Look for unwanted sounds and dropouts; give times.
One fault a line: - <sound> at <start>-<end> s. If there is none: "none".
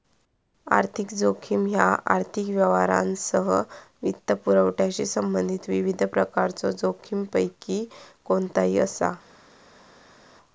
none